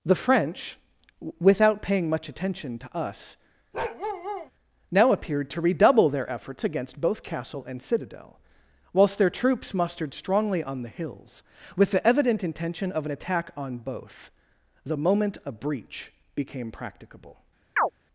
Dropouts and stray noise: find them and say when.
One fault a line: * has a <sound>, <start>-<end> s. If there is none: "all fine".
* has a bark, 3.7-4.5 s
* has a chirp, 17.8-17.9 s